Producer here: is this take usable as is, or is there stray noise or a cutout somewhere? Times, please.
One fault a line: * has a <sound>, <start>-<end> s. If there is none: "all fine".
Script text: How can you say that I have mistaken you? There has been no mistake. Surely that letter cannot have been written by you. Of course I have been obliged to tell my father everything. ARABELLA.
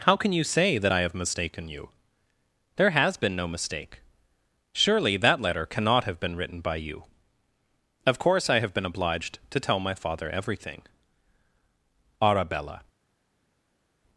all fine